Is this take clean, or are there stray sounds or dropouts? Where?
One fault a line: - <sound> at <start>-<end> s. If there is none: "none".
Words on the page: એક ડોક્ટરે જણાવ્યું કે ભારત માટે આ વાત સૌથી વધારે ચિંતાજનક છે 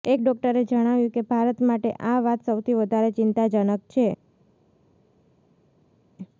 none